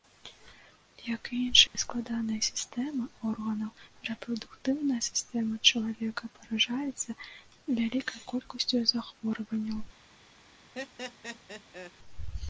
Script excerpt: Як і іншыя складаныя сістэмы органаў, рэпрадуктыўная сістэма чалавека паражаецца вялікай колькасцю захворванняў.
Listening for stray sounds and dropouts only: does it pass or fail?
fail